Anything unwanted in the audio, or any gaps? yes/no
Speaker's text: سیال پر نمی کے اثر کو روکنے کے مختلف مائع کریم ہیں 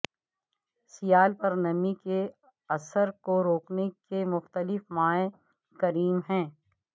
no